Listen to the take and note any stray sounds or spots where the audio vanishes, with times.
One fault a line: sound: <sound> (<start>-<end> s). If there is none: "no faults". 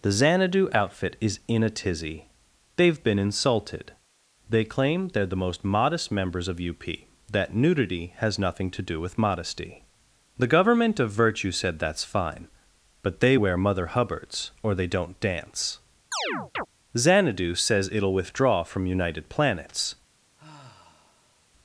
sound: chirp (16.1-16.7 s)
sound: sigh (20.4-21.5 s)